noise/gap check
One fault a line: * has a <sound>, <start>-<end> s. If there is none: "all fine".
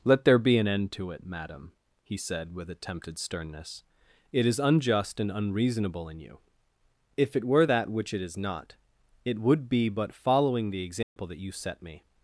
* has a dropout, 11.0-11.2 s